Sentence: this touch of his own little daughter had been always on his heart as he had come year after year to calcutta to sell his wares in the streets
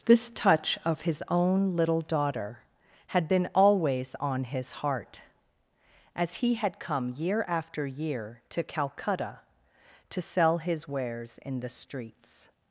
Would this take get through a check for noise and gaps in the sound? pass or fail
pass